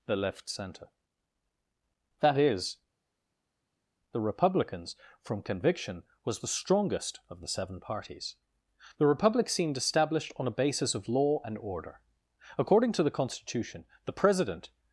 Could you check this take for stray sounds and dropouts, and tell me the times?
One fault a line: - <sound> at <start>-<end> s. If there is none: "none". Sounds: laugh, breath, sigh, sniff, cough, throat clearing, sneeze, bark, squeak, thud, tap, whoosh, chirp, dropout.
none